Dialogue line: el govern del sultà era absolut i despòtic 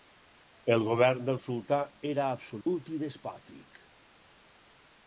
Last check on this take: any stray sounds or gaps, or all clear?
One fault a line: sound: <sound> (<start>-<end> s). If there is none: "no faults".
sound: dropout (2.6-2.7 s)